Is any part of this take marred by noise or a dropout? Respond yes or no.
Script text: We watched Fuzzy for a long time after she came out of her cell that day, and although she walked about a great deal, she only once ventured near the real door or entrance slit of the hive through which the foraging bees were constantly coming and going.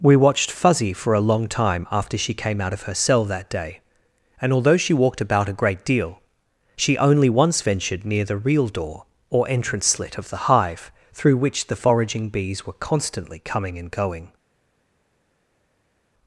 no